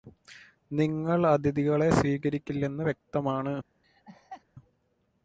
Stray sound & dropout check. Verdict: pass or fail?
fail